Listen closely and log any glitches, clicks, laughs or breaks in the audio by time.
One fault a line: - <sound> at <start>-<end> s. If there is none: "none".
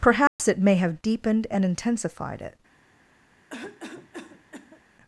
- dropout at 0.3-0.4 s
- cough at 3.5-4.8 s